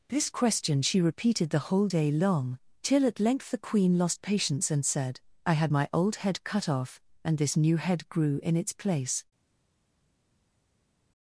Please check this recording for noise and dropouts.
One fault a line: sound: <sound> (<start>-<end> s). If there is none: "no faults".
no faults